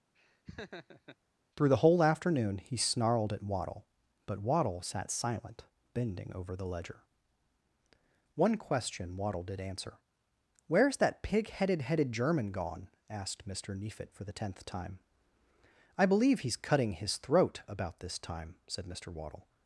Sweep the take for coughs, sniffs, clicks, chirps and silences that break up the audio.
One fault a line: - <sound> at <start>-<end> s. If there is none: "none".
- laugh at 0.1-1.2 s